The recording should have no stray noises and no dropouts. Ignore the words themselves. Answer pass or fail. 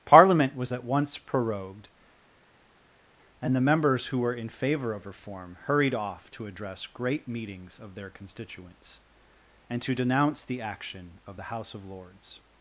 pass